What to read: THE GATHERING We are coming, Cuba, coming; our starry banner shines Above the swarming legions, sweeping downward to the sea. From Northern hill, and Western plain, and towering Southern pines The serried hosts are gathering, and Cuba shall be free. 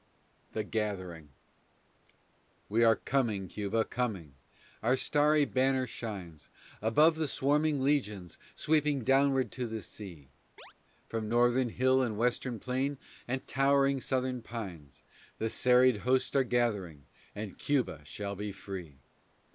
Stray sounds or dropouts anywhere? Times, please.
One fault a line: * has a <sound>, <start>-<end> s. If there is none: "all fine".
* has a chirp, 10.6-10.7 s